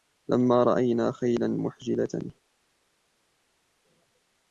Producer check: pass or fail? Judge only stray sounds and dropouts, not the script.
pass